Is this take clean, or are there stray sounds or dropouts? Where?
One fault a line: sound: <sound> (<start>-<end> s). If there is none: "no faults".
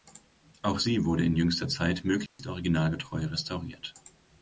sound: dropout (2.3-2.4 s)